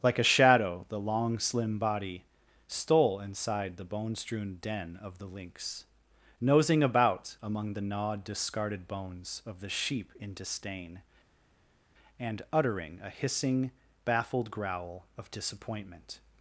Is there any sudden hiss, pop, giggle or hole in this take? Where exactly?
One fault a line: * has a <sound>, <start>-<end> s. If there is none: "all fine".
all fine